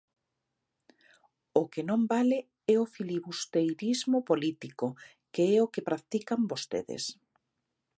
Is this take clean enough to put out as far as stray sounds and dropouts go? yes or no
yes